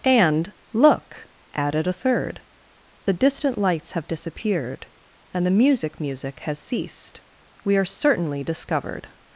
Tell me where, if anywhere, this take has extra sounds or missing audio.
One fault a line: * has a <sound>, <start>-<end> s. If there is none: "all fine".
all fine